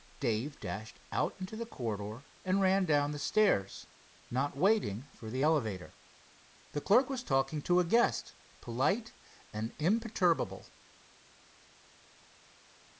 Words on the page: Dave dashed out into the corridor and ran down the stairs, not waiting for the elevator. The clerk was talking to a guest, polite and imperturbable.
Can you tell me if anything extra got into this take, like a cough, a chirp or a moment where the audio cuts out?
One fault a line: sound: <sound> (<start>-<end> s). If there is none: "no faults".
no faults